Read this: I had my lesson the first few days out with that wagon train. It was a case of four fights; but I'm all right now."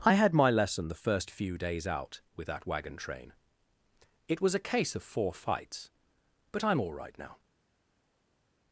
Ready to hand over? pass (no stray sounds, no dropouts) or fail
pass